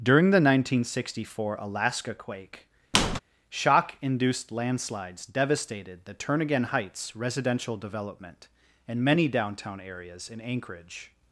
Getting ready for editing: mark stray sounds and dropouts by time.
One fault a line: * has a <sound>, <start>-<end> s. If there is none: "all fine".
* has a squeak, 2.9-3.2 s